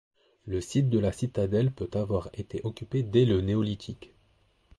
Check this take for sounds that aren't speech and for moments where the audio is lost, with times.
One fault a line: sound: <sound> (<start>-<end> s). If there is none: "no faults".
no faults